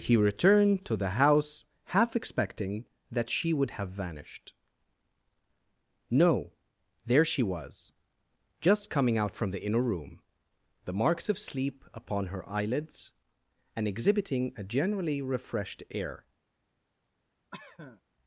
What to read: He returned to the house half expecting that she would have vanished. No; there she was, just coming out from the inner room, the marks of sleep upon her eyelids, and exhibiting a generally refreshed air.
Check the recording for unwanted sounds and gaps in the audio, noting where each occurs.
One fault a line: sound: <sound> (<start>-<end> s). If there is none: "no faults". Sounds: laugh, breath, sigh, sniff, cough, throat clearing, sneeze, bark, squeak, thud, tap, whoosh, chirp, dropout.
sound: cough (17.5-18.0 s)